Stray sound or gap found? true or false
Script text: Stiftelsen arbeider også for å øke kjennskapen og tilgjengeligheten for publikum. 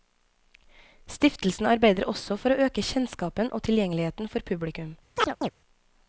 true